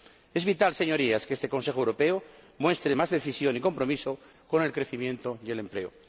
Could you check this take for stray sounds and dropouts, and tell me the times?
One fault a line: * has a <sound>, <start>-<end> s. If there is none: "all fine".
all fine